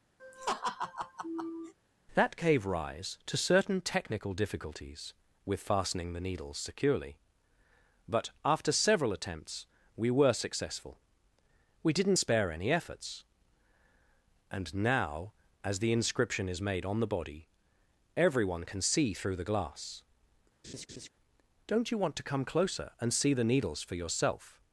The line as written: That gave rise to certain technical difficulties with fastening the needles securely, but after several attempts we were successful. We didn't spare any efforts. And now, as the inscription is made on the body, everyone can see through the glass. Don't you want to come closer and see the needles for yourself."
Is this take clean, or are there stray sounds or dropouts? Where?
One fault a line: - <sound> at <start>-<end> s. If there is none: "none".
- laugh at 0.2-1.7 s
- laugh at 20.6-21.1 s